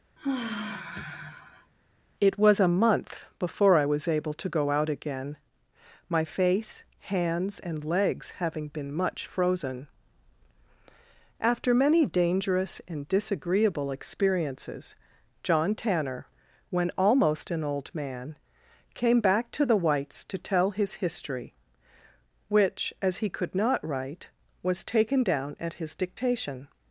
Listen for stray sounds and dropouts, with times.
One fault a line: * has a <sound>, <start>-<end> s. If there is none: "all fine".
* has a sigh, 0.2-1.7 s